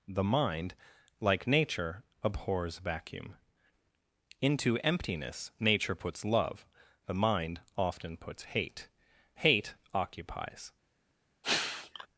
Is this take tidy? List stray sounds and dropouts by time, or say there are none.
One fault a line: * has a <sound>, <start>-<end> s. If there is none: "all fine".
* has a sneeze, 11.4-12.1 s